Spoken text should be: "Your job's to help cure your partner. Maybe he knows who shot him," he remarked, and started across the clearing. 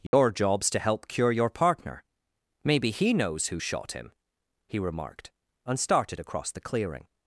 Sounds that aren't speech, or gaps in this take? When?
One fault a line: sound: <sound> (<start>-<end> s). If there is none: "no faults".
sound: dropout (0.1-0.1 s)